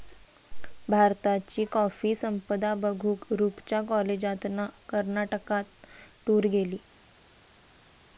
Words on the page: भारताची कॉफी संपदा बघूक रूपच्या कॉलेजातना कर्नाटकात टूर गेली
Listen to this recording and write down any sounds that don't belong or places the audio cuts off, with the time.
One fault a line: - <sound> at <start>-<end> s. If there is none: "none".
none